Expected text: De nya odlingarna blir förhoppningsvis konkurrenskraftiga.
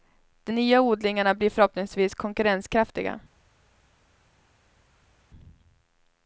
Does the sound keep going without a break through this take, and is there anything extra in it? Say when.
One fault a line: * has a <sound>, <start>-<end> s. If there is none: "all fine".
all fine